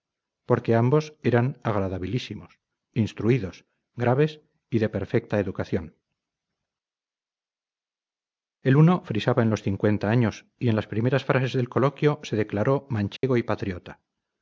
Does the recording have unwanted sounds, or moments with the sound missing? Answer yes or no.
yes